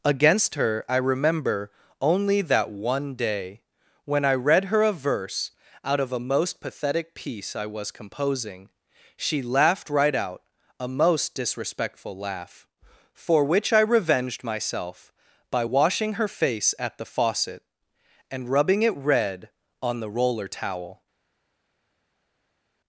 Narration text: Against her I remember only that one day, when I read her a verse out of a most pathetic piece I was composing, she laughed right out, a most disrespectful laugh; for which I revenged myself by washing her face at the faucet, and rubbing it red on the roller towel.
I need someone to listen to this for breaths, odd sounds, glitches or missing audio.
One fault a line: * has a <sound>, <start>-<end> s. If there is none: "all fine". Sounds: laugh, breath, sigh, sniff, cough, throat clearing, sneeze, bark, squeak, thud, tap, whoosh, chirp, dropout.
all fine